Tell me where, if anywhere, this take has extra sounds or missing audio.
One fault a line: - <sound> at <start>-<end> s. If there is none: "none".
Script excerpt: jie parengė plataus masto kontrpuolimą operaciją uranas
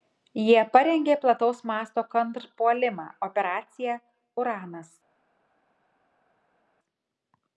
none